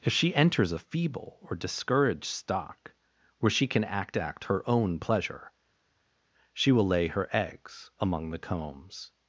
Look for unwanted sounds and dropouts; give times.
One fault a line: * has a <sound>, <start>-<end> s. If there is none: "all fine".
all fine